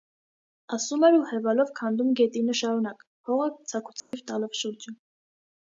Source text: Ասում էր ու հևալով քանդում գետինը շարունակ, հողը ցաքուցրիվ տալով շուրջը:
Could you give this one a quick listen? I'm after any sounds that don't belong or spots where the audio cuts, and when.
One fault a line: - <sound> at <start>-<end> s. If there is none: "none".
- dropout at 4.0-4.1 s